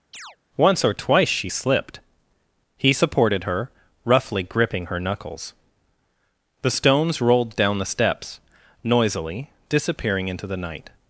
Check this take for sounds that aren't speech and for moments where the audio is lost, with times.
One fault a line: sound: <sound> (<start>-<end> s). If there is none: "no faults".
sound: chirp (0.1-0.4 s)